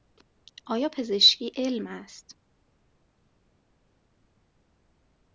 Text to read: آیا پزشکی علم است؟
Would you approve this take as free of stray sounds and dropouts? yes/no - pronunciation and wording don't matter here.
yes